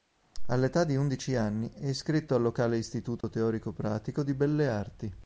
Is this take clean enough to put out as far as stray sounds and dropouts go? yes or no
no